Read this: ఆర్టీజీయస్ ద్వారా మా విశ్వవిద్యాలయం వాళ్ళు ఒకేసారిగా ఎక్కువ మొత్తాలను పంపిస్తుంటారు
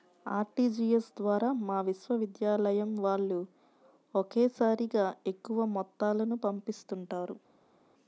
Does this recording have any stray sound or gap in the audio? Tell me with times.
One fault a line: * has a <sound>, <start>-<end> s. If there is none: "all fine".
all fine